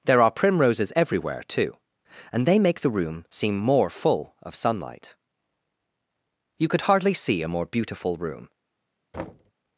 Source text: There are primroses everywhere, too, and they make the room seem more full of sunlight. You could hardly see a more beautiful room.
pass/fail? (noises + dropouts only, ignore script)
fail